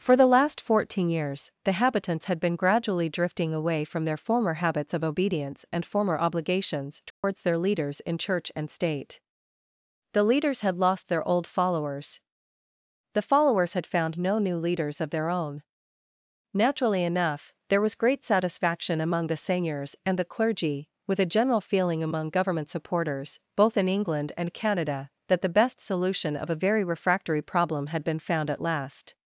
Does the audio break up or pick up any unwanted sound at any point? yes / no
yes